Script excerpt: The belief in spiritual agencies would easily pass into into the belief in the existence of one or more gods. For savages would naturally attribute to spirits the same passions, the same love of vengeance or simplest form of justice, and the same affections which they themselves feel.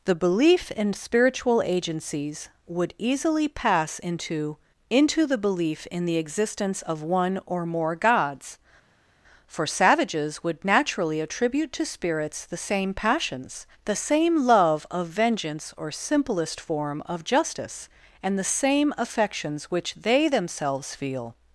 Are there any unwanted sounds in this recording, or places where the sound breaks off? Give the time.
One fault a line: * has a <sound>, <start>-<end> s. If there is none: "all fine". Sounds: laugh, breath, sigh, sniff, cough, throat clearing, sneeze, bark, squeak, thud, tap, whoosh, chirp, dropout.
all fine